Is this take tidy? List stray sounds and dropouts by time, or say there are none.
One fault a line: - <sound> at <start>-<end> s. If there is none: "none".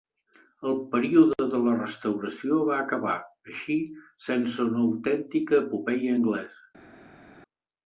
none